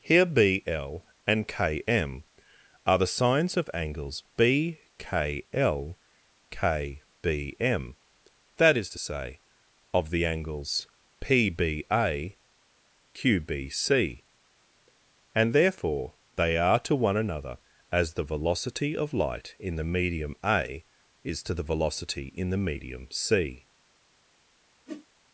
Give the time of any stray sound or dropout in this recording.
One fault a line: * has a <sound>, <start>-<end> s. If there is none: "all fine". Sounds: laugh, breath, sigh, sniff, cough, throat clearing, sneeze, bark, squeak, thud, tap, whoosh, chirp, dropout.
* has a whoosh, 24.9-25.1 s